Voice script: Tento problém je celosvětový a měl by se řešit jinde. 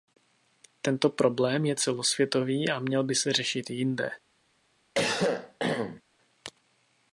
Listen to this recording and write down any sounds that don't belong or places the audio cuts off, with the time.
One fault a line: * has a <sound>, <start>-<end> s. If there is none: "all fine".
* has a cough, 4.9-6.0 s